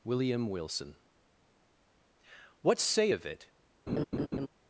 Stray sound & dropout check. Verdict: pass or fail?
fail